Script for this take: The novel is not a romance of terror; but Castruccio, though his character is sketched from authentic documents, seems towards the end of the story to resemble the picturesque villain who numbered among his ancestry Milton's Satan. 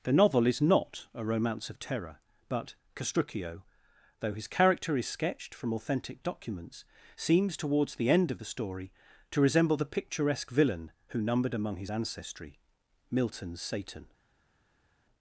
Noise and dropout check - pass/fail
pass